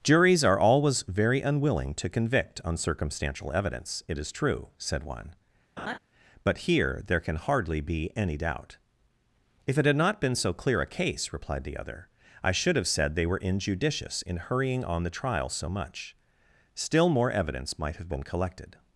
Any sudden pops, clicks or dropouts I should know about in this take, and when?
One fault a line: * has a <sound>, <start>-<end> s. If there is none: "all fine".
* has a laugh, 5.8-6.0 s